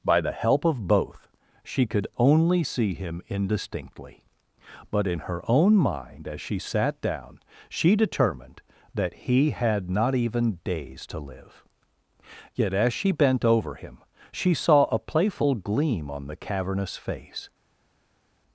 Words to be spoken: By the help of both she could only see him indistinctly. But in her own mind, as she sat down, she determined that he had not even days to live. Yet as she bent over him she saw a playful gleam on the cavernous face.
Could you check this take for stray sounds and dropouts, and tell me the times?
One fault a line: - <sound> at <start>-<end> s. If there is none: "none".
none